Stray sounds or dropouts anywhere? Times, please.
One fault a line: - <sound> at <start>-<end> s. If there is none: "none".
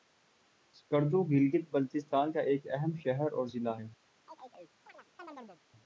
- chirp at 4.3-5.6 s